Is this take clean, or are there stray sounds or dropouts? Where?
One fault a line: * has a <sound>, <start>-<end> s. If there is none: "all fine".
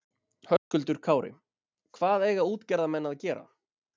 * has a dropout, 0.6-0.7 s